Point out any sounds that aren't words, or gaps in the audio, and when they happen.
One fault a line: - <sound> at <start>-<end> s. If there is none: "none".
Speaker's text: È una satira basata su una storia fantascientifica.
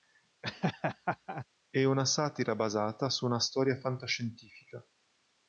- laugh at 0.4-1.5 s